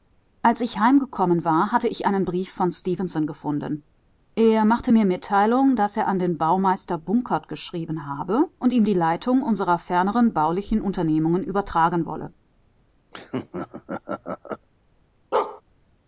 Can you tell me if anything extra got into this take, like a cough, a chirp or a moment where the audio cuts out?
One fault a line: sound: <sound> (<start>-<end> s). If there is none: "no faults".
sound: laugh (13.1-14.7 s)
sound: bark (15.3-15.6 s)